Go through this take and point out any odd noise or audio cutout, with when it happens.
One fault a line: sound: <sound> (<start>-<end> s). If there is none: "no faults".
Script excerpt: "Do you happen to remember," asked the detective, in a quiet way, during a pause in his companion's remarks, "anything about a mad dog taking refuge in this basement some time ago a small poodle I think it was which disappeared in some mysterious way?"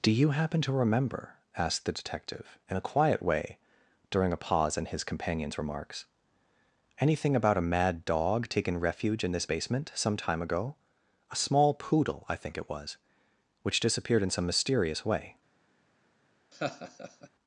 sound: laugh (16.5-17.3 s)